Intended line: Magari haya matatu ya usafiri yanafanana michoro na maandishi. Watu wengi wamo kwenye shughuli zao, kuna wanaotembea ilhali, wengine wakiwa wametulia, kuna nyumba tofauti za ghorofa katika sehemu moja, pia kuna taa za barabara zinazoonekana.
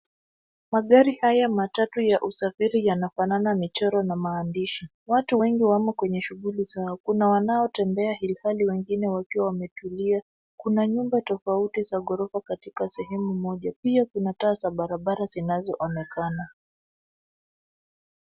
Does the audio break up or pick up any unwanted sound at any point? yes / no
no